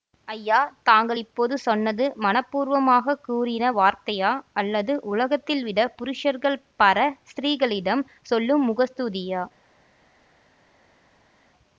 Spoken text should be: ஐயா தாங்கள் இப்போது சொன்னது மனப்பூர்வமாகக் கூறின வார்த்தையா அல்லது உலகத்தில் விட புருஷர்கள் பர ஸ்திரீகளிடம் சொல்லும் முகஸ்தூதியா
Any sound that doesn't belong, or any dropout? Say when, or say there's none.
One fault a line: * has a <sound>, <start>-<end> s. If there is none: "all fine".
all fine